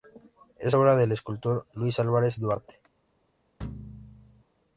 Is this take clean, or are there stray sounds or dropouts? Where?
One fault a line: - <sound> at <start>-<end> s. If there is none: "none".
- thud at 3.6-4.4 s